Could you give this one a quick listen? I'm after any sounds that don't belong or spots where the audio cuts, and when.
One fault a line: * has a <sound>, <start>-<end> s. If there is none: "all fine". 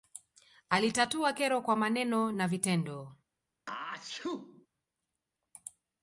* has a sneeze, 3.7-4.7 s